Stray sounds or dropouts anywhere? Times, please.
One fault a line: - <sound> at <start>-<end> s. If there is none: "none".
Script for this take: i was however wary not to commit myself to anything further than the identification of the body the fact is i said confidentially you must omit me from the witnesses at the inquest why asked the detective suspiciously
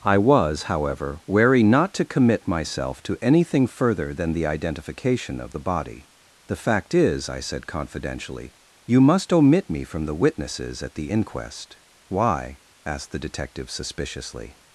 none